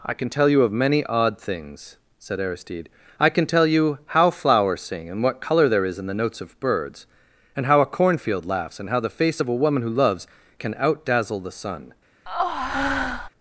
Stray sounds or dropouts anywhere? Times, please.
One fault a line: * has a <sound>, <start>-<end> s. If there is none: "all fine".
* has a breath, 12.3-13.3 s